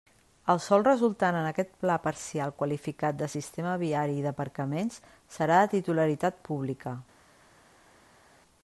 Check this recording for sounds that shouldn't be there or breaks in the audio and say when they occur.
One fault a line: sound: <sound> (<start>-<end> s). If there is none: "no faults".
no faults